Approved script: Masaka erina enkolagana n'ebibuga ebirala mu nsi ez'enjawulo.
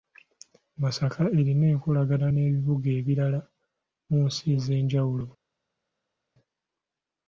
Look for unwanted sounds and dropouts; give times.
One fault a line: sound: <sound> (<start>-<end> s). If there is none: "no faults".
no faults